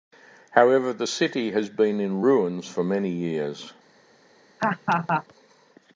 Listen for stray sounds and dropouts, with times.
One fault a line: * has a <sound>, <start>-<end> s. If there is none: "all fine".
* has a laugh, 4.6-5.2 s